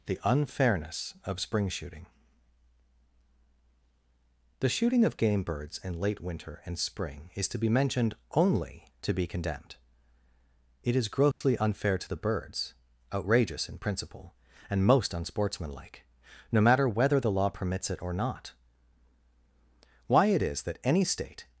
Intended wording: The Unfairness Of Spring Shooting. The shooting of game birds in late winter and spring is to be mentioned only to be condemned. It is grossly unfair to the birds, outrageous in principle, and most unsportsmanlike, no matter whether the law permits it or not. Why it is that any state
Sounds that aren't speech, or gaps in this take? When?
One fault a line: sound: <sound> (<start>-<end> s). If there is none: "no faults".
sound: dropout (11.3-11.4 s)